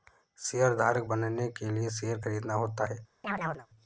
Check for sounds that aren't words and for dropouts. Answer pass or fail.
fail